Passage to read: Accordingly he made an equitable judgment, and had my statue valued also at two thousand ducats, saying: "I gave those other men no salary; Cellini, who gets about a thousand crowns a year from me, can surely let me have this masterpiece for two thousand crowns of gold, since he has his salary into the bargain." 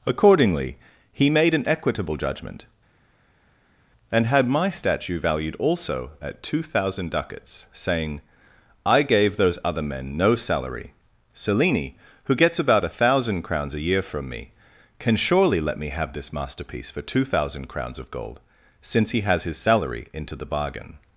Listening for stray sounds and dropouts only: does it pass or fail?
pass